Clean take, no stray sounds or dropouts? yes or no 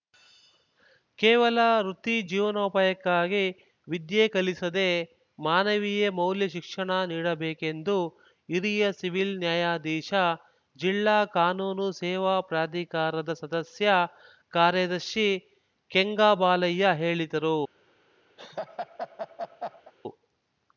no